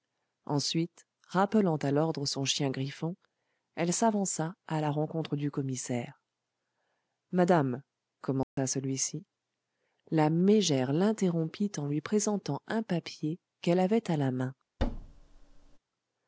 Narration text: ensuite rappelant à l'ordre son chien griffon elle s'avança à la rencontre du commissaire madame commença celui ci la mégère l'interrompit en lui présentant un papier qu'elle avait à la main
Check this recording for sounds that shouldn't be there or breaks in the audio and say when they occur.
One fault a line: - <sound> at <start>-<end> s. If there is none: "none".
- dropout at 8.4-8.6 s
- thud at 14.8-15.8 s